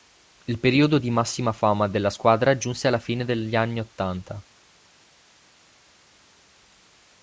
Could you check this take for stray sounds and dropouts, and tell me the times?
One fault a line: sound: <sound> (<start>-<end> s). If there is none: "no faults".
no faults